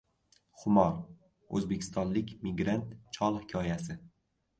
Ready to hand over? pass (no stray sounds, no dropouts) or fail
pass